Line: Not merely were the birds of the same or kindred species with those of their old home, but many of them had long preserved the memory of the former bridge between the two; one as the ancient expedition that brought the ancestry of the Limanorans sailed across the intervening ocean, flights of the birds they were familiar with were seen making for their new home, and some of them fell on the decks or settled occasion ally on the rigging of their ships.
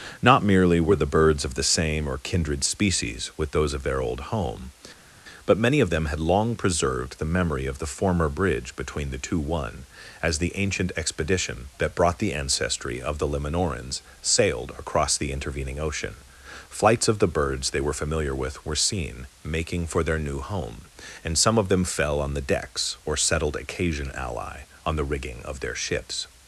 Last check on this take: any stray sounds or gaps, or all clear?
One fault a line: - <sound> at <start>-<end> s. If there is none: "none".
none